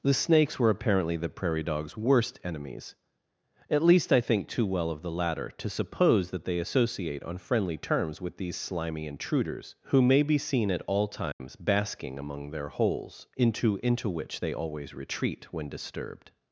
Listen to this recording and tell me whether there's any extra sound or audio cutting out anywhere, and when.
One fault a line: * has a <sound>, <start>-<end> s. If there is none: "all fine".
* has a dropout, 11.3-11.4 s